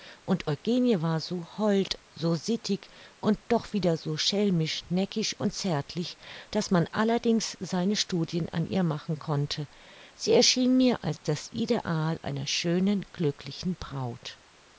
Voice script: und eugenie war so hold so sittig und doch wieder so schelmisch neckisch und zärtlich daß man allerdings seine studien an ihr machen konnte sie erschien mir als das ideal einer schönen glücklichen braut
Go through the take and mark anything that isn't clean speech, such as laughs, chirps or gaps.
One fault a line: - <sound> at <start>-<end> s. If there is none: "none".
none